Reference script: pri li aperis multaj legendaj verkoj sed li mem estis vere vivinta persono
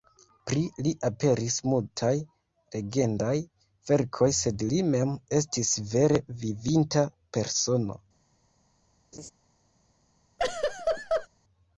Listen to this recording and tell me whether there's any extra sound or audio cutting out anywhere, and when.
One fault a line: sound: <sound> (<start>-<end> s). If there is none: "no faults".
sound: laugh (9.1-9.3 s)
sound: laugh (10.4-11.3 s)